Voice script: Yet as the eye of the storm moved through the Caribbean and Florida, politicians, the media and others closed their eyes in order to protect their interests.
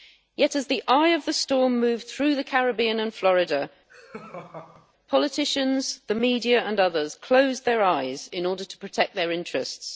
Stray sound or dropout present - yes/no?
yes